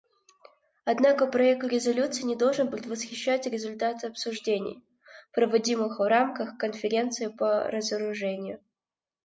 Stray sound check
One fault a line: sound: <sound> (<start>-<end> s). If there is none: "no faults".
no faults